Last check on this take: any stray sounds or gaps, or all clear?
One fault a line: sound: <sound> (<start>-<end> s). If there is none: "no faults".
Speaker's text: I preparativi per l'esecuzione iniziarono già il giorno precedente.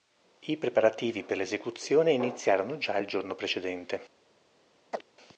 sound: chirp (4.9-5.0 s)